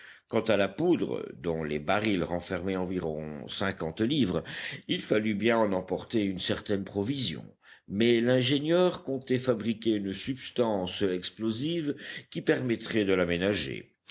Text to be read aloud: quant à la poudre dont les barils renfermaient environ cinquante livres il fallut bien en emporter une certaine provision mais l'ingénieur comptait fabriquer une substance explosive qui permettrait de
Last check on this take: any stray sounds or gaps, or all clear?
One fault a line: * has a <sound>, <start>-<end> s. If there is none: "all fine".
all fine